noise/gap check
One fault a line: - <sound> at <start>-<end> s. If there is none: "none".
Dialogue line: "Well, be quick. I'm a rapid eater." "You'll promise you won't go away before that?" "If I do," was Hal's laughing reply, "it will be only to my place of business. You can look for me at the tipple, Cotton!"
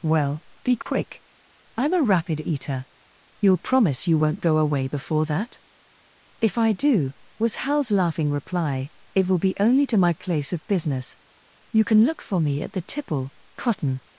- dropout at 0.8-0.9 s